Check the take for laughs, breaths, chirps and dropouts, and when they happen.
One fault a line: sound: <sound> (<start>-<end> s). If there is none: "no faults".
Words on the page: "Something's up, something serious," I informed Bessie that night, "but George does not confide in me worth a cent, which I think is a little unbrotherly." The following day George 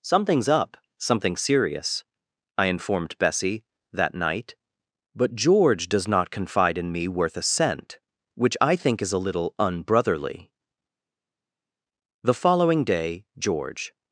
no faults